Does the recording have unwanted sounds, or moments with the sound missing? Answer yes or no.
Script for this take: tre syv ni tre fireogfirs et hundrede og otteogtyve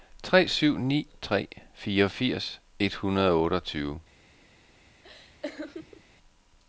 yes